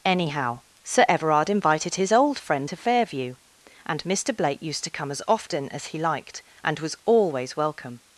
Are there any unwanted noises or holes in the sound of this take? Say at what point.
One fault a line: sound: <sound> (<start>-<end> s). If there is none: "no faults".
no faults